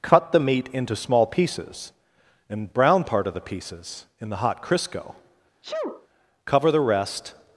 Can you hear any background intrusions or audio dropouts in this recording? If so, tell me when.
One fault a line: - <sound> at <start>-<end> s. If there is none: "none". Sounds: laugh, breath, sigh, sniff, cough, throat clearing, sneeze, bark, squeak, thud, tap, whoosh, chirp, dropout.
- sneeze at 5.6-6.1 s